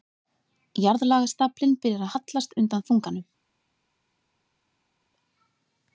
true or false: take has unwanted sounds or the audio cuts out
false